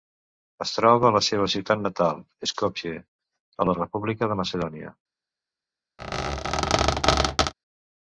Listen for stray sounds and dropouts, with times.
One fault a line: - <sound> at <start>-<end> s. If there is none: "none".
- squeak at 6.0-7.5 s